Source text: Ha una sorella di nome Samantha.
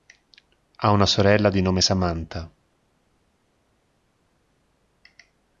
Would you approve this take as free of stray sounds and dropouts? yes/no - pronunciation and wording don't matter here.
yes